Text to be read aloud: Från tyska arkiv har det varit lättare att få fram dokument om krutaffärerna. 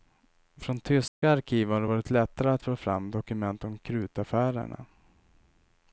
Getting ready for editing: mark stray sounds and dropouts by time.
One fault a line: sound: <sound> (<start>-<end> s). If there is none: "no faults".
sound: dropout (1.1-1.2 s)